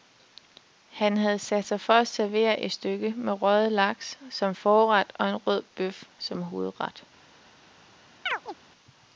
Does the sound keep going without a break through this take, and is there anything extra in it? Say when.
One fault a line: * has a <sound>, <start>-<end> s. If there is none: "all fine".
* has a chirp, 8.3-8.5 s